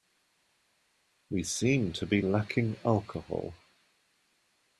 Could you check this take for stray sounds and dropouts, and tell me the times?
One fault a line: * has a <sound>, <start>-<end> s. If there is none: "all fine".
all fine